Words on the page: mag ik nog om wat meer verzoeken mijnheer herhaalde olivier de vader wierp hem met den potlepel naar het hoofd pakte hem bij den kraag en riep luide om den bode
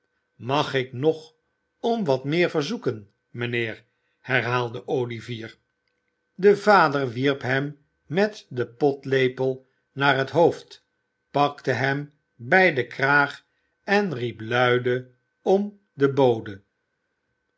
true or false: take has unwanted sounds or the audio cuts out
false